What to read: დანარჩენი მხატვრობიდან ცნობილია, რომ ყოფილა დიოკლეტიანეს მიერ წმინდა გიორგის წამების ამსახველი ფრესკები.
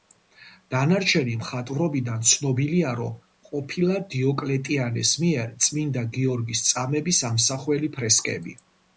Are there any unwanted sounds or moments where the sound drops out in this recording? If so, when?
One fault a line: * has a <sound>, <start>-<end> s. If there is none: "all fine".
all fine